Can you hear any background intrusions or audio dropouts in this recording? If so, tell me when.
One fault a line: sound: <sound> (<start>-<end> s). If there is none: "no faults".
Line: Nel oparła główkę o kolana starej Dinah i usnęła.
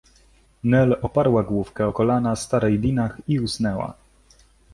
no faults